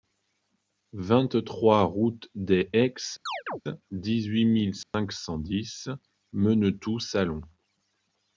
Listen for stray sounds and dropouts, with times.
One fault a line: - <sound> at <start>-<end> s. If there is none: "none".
- chirp at 3.3-3.6 s
- dropout at 4.8-4.9 s